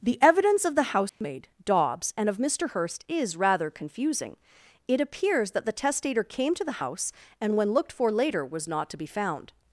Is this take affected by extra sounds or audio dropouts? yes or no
yes